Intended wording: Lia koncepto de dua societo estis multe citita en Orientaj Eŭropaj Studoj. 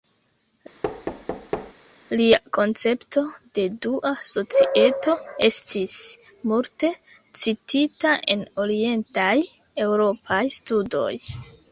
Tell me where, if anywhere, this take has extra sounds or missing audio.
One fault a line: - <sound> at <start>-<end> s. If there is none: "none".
- thud at 0.8-1.7 s